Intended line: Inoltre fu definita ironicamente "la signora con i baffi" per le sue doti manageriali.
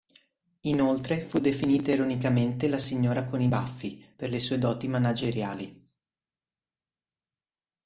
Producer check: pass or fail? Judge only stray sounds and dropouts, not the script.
pass